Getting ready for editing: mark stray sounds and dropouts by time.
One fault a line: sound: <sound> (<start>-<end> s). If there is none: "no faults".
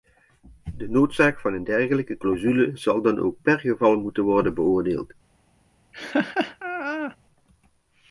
sound: laugh (5.9-7.2 s)